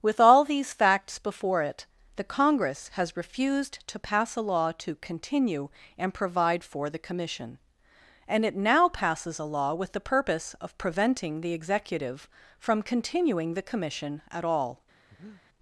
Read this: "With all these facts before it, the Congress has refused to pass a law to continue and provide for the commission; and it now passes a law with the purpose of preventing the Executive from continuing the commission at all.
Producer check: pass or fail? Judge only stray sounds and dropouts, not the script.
fail